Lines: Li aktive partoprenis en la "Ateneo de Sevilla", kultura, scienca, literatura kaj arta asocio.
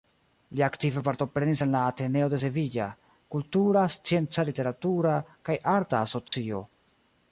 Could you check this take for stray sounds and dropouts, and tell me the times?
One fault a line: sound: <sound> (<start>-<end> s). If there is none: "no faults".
sound: dropout (6.3-6.3 s)